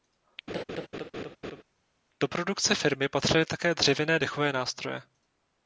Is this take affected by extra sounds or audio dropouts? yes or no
yes